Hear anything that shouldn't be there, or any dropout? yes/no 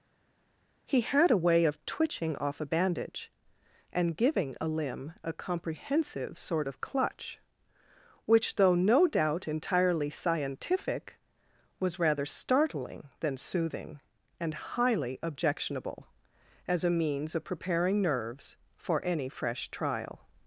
no